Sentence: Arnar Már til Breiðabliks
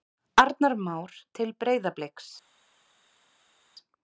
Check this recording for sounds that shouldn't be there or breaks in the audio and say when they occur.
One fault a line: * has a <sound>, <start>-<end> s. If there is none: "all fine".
all fine